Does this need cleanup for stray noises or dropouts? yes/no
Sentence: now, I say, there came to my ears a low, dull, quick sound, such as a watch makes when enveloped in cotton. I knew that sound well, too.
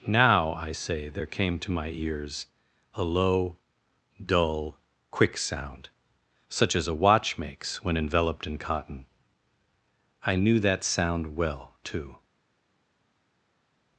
no